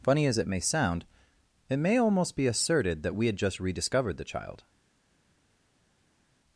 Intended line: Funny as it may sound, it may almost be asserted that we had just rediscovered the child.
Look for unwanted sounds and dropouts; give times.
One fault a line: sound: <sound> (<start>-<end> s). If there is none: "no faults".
no faults